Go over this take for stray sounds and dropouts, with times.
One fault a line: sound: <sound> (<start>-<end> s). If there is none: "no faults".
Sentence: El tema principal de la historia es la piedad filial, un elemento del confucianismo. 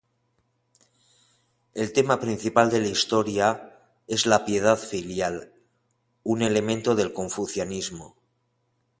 no faults